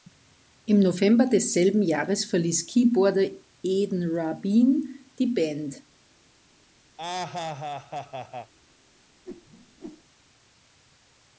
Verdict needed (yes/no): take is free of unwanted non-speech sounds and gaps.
no